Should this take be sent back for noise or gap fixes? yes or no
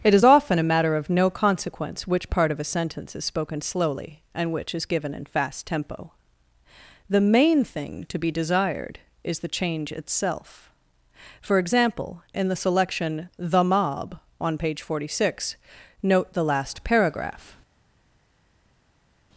no